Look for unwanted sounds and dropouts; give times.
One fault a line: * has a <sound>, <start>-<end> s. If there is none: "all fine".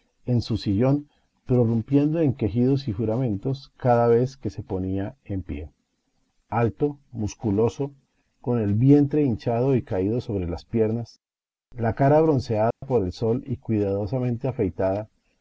* has a dropout, 12.7-12.8 s